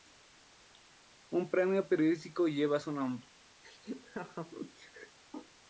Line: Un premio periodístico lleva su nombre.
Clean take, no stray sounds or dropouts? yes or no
no